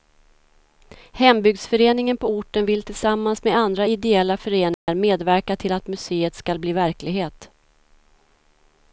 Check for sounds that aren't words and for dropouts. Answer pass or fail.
fail